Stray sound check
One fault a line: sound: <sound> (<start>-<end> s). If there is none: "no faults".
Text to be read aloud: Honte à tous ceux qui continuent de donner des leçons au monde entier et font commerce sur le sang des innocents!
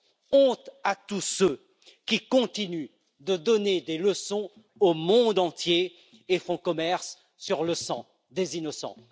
no faults